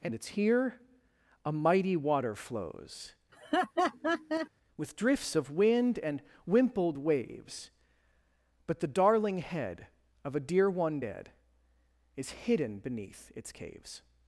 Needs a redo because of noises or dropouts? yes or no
yes